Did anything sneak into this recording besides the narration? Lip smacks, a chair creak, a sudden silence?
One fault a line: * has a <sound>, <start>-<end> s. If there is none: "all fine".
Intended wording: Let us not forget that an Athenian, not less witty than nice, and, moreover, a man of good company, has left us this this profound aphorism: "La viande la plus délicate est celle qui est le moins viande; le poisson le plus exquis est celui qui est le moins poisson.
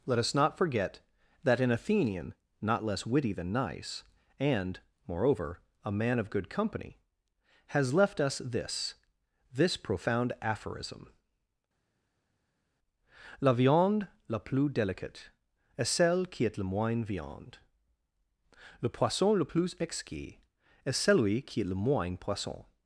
all fine